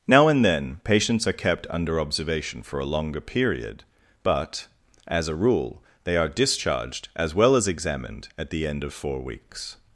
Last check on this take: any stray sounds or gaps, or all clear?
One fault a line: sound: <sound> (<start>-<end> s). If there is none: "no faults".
no faults